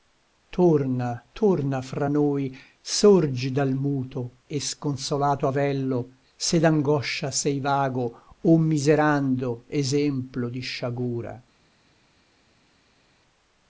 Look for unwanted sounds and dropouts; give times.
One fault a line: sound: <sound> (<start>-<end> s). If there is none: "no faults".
no faults